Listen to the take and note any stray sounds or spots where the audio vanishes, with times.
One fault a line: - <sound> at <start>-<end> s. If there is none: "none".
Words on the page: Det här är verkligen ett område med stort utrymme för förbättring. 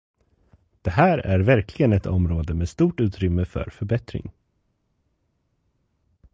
none